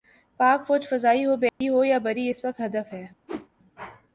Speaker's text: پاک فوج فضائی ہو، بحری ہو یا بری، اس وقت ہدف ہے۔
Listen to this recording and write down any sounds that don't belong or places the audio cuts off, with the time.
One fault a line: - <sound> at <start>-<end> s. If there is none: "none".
- dropout at 1.5-1.6 s
- whoosh at 3.3-3.5 s